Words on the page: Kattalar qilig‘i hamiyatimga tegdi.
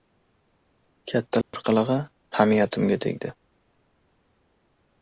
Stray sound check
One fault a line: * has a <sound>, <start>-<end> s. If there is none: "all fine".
* has a dropout, 1.4-1.5 s